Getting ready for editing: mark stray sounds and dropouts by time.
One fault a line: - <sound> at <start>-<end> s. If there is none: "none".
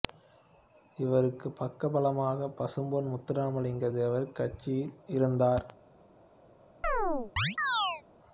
- chirp at 6.8-8.0 s